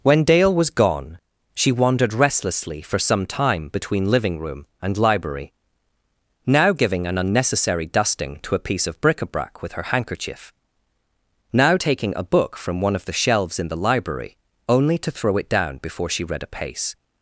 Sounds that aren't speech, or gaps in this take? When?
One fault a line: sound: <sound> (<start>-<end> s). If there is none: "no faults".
no faults